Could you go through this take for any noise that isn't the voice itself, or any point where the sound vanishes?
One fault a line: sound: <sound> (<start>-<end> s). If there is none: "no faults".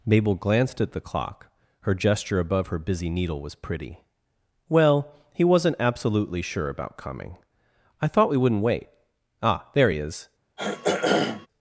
sound: throat clearing (10.6-11.5 s)